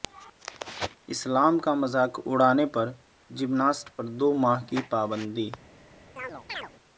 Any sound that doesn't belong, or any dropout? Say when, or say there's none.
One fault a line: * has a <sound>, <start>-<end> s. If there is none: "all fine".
* has a chirp, 6.2-6.7 s